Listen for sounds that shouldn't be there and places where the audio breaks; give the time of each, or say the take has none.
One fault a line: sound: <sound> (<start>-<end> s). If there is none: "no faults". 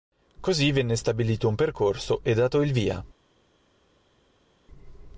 no faults